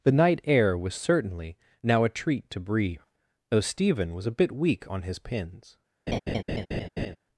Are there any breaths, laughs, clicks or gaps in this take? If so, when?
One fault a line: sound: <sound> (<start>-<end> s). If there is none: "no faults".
sound: laugh (6.1-7.2 s)